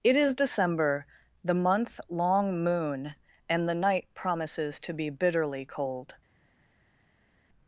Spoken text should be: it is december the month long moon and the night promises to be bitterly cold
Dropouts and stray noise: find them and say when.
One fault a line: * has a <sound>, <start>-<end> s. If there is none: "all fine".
all fine